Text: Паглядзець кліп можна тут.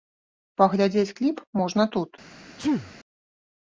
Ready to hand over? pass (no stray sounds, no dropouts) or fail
fail